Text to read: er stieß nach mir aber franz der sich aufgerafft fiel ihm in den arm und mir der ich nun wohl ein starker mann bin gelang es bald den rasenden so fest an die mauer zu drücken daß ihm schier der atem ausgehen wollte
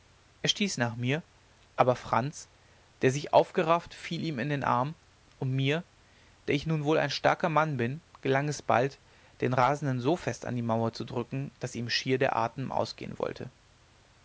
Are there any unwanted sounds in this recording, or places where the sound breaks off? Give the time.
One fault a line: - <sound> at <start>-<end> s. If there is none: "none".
none